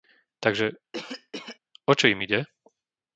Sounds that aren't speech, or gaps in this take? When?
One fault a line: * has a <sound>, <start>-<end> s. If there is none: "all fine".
* has a cough, 0.9-1.6 s